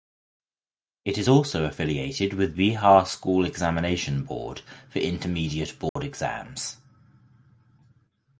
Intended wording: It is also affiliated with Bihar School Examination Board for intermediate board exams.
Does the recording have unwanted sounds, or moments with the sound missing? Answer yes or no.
yes